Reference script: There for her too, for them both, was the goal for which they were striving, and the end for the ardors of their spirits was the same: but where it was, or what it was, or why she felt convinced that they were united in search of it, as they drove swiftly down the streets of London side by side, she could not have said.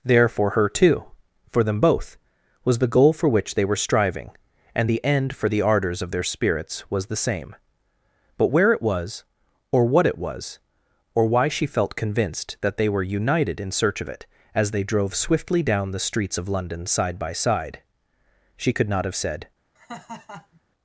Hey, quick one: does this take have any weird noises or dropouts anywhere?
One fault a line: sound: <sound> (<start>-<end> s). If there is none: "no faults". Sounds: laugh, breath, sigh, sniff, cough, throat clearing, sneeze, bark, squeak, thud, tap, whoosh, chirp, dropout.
sound: laugh (19.8-20.6 s)